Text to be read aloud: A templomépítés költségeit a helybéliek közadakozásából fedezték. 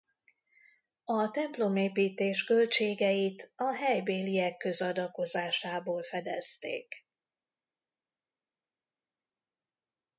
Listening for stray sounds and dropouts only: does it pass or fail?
pass